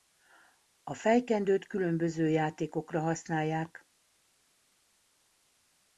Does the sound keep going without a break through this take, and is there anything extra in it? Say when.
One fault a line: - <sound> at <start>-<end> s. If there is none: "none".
none